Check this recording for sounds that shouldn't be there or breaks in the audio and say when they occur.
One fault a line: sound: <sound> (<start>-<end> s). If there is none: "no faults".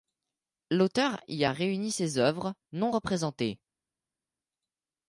no faults